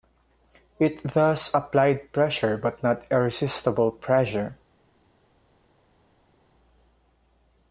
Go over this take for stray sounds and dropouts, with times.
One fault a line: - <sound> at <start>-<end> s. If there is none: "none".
none